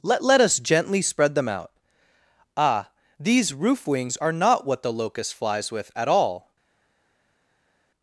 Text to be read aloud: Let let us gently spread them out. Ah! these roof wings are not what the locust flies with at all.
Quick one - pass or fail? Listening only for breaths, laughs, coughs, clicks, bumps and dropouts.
pass